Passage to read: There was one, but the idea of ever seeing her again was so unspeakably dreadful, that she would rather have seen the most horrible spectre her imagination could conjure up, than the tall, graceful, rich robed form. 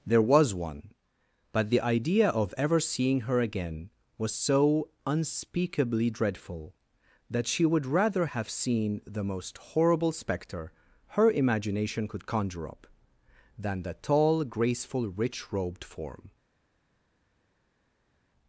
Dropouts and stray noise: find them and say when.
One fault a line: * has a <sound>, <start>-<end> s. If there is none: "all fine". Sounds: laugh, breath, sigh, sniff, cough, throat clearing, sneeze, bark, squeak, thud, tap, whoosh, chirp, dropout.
all fine